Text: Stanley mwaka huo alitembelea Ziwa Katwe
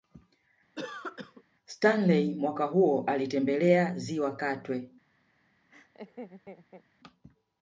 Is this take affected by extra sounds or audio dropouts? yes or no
yes